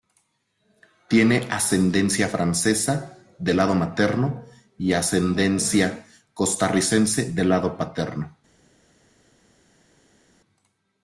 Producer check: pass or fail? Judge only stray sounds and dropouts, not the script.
pass